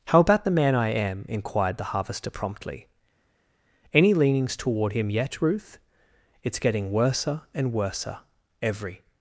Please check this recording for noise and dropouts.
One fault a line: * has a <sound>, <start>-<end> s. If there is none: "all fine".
all fine